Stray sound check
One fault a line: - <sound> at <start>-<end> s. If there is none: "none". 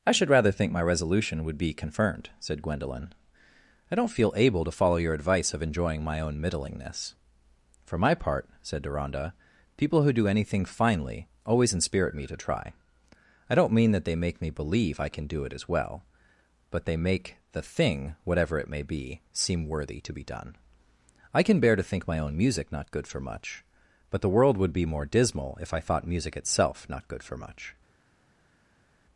none